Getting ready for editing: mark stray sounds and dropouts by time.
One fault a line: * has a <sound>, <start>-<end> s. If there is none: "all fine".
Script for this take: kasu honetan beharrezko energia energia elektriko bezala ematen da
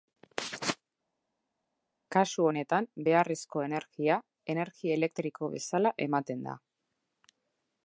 all fine